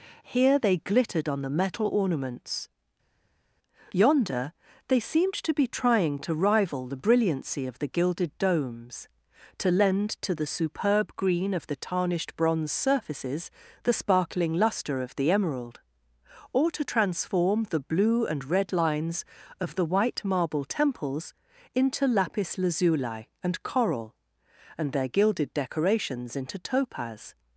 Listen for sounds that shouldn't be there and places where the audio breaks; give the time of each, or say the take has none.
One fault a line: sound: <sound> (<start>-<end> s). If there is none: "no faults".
no faults